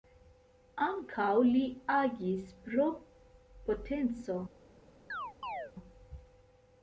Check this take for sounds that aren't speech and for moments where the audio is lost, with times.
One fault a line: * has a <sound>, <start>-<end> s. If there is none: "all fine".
* has a chirp, 5.1-5.7 s